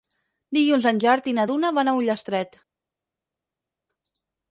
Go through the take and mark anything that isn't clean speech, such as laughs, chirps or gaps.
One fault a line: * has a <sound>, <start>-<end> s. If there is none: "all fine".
all fine